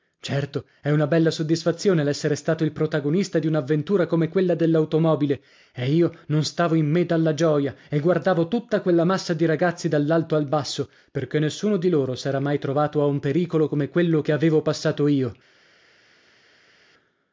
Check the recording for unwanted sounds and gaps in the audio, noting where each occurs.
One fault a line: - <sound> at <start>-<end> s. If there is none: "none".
none